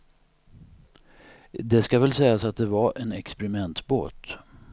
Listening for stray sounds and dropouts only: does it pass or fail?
pass